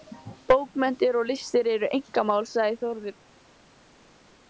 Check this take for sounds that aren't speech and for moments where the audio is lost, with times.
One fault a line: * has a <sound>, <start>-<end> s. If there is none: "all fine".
all fine